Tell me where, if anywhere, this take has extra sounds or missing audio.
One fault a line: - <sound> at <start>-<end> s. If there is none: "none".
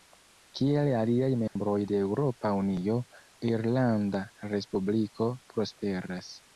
- dropout at 1.5-1.6 s